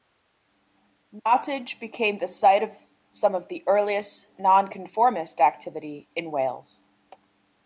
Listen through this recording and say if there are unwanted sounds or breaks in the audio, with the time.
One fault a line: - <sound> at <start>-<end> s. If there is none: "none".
none